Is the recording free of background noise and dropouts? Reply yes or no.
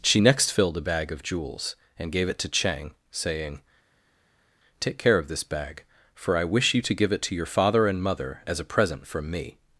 yes